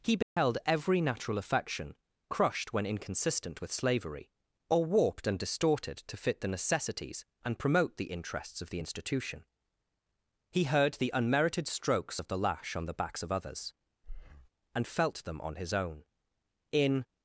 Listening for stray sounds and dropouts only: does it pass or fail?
fail